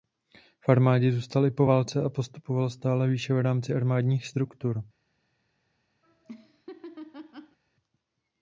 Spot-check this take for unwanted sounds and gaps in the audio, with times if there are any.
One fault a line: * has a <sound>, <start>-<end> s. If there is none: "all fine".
* has a laugh, 6.0-7.6 s